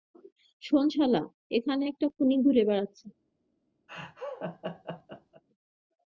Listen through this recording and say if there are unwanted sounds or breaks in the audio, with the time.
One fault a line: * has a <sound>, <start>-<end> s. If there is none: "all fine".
* has a laugh, 3.9-5.4 s